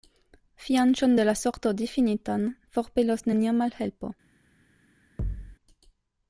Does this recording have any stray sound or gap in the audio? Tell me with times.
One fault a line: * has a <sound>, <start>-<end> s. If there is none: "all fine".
* has a thud, 5.2-5.6 s